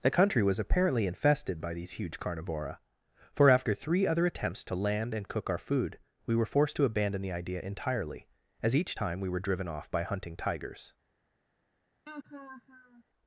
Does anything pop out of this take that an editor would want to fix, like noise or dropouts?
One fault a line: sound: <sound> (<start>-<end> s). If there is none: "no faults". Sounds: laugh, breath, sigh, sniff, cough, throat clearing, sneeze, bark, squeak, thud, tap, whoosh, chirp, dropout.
sound: laugh (12.1-13.0 s)